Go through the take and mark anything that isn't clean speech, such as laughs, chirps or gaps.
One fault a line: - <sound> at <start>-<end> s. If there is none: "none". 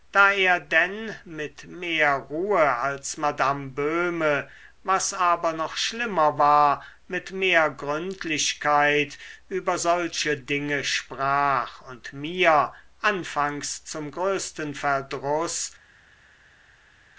none